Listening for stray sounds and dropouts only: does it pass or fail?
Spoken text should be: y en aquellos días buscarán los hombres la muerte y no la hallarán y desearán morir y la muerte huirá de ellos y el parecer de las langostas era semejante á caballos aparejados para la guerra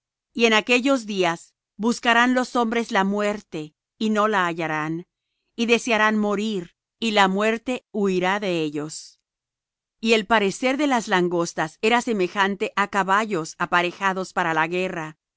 pass